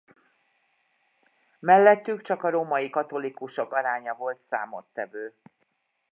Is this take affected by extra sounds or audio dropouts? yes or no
no